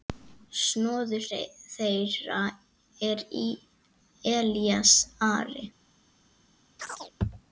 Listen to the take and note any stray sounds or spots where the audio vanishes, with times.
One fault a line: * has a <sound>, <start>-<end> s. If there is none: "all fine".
* has a chirp, 6.8-7.1 s